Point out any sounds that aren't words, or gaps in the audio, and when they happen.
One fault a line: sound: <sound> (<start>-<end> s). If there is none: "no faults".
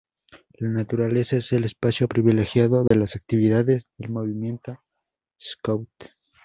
sound: dropout (2.9-2.9 s)